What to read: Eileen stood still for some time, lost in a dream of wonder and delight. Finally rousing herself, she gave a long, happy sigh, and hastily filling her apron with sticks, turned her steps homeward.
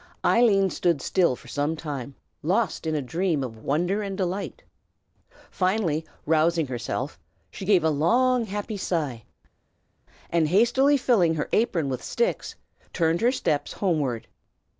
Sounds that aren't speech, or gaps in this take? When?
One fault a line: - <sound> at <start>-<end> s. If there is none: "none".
none